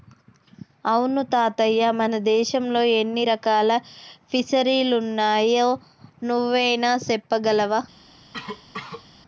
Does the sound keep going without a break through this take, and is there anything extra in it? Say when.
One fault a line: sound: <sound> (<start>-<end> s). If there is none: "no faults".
sound: cough (8.3-9.1 s)